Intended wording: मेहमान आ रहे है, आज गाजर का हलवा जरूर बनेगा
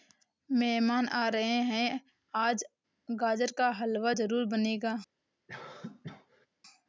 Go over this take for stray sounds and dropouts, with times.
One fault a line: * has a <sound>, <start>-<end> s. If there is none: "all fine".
* has a cough, 5.5-6.5 s